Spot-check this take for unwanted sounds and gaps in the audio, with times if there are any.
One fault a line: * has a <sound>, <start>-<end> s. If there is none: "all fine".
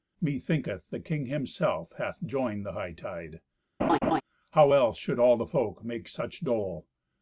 * has a laugh, 3.8-4.2 s